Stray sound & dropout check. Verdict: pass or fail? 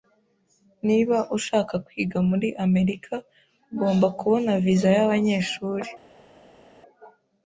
pass